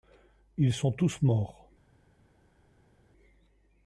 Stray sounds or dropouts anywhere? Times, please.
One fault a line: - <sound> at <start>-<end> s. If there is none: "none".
none